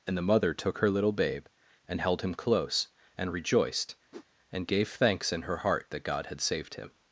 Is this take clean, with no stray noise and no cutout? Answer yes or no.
no